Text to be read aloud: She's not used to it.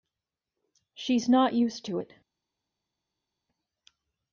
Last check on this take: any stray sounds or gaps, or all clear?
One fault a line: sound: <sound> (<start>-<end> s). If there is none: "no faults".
no faults